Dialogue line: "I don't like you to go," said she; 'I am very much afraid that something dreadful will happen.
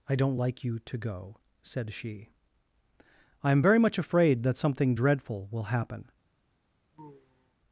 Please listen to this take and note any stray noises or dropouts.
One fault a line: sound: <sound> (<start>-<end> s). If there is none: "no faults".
sound: sigh (6.9-7.5 s)